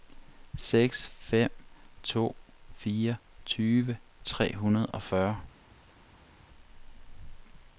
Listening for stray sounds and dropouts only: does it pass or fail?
pass